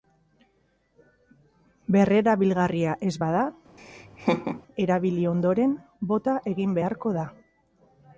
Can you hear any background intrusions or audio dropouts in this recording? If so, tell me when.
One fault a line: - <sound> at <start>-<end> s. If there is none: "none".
- laugh at 3.8-4.6 s